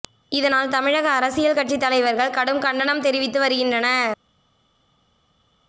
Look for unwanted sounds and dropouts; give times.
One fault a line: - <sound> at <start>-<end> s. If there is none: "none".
none